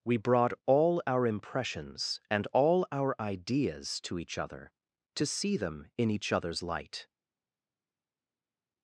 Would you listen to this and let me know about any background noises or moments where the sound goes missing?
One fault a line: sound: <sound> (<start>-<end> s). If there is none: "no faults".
no faults